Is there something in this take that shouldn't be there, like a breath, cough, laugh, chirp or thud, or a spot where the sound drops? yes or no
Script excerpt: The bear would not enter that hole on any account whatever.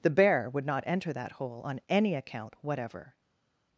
no